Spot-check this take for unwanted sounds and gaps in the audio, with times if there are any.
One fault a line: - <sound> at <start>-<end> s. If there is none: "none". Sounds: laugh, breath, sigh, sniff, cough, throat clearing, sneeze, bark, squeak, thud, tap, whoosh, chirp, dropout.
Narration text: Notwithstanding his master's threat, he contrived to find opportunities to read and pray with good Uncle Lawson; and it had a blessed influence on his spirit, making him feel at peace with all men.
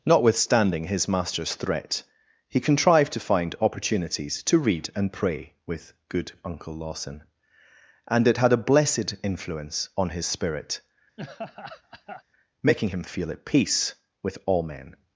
- laugh at 11.2-12.2 s